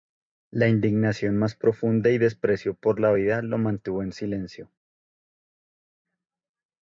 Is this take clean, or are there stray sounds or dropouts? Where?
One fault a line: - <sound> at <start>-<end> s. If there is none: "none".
none